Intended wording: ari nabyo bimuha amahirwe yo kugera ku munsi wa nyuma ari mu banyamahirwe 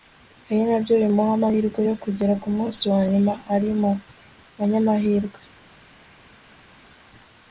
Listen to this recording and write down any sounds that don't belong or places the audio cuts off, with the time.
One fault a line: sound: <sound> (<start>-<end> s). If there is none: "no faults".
no faults